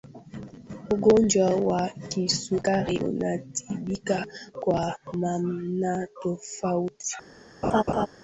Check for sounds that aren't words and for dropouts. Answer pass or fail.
fail